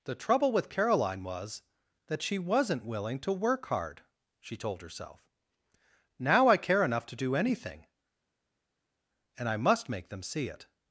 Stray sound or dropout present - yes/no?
no